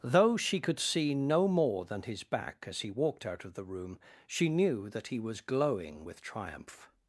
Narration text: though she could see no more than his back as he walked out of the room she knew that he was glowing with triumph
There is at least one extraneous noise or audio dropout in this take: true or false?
false